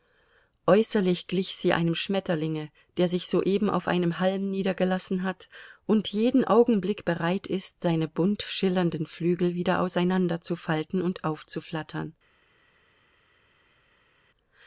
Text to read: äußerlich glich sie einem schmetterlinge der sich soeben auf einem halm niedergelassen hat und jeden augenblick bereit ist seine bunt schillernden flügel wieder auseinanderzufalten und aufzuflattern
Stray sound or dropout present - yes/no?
no